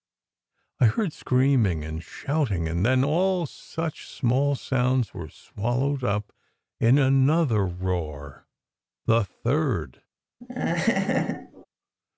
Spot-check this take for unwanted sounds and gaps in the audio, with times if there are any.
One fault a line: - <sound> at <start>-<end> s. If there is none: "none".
- laugh at 10.4-11.7 s